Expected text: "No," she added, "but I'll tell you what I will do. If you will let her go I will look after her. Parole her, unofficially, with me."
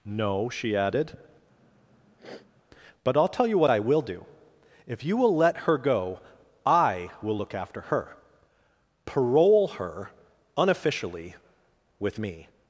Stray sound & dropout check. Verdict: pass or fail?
fail